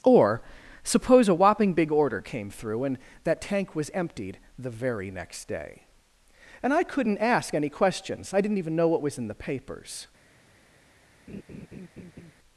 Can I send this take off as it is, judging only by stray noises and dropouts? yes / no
no